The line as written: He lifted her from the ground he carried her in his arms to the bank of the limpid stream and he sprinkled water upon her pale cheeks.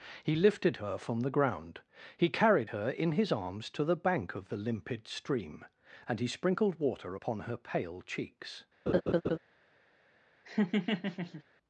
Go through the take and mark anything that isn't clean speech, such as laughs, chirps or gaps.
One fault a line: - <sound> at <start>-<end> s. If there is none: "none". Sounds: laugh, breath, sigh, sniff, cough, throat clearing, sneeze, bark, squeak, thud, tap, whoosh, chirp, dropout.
- laugh at 8.9-9.4 s
- laugh at 10.4-11.4 s